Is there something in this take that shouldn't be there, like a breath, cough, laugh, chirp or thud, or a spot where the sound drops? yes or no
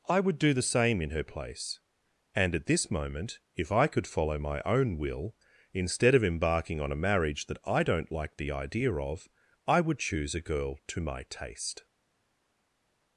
no